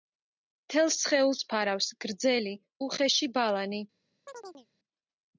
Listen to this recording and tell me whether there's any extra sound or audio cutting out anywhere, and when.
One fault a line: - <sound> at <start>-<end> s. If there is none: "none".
- chirp at 4.3-4.7 s